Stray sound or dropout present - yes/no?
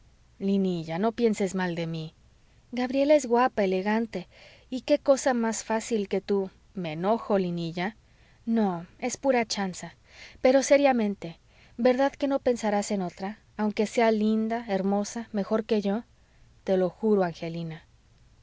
no